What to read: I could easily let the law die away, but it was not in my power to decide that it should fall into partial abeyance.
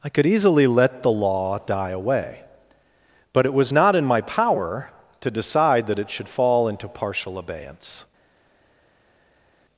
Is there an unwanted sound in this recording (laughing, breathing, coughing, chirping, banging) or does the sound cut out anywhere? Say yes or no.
no